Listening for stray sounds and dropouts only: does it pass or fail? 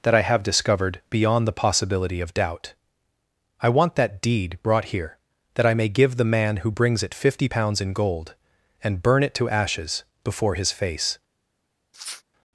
fail